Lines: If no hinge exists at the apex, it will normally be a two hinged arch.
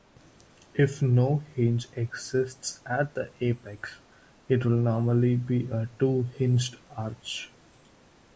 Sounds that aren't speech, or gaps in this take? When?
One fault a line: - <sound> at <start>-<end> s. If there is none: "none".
none